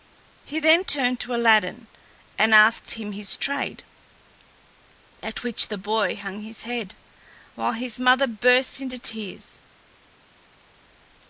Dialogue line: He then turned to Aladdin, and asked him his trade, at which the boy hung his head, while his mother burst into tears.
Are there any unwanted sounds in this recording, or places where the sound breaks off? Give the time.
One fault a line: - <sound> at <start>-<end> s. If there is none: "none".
none